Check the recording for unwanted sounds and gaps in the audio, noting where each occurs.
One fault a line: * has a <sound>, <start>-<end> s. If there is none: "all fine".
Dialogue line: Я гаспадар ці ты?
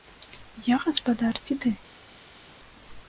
all fine